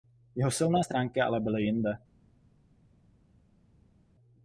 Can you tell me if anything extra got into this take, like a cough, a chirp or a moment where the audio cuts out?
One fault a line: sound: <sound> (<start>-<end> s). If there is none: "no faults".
no faults